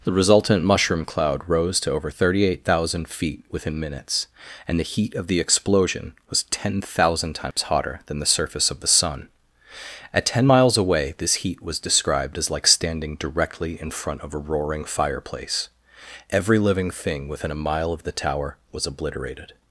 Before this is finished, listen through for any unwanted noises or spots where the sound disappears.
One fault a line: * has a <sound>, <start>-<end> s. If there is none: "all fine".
* has a dropout, 7.5-7.6 s